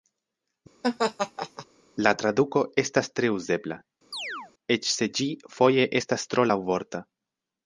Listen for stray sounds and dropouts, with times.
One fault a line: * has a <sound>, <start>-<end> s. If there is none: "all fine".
* has a laugh, 0.8-1.7 s
* has a chirp, 4.1-4.5 s